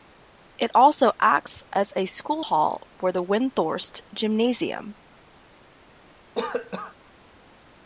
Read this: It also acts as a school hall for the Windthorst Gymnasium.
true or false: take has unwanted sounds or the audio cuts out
true